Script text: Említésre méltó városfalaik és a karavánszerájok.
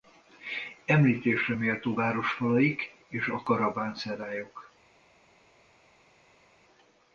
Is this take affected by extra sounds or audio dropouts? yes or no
no